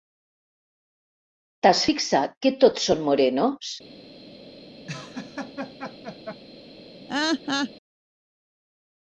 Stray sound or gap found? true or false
true